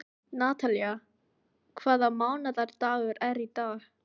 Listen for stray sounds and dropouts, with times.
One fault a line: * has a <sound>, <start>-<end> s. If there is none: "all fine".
all fine